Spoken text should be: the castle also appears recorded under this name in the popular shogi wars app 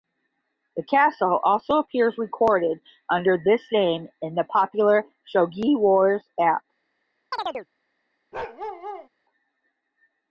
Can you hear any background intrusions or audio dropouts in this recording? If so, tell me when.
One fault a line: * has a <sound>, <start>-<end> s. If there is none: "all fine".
* has a chirp, 7.3-7.7 s
* has a bark, 8.3-9.1 s